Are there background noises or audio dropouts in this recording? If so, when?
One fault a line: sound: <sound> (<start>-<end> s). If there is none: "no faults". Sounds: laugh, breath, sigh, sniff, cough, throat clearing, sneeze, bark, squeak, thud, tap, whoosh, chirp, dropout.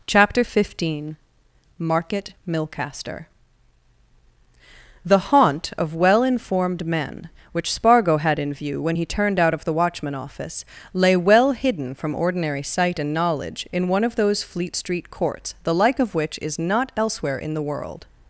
no faults